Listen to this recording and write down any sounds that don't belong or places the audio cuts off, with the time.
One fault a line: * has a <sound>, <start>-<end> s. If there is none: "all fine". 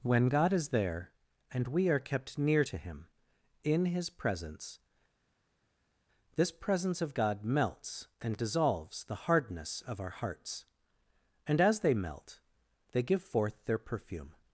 all fine